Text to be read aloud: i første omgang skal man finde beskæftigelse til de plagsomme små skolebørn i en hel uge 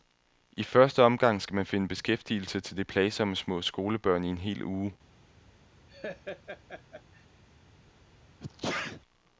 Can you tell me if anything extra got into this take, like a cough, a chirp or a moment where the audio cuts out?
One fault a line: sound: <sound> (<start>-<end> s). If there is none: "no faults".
sound: laugh (5.9-7.3 s)
sound: sneeze (8.4-9.0 s)